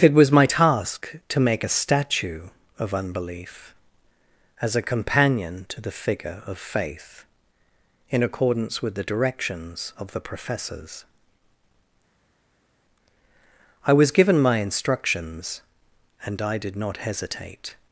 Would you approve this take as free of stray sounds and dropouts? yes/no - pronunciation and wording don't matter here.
yes